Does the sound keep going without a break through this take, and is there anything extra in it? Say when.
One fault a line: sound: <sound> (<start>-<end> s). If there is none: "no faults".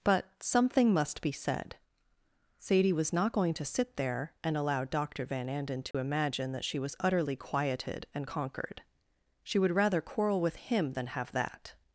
sound: dropout (5.9-5.9 s)